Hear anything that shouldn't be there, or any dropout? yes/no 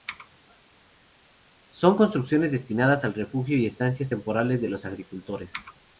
no